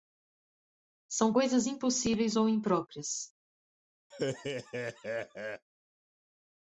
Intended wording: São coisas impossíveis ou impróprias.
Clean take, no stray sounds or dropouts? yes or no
no